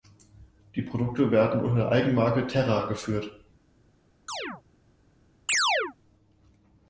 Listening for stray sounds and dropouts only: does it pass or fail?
fail